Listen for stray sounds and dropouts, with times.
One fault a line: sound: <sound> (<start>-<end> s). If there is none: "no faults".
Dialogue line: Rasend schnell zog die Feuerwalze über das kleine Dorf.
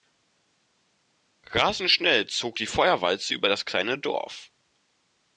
no faults